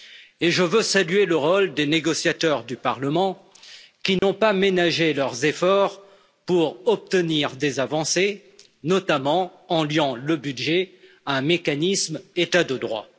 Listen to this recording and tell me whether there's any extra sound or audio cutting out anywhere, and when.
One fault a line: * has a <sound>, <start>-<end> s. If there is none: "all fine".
* has a dropout, 4.2-4.2 s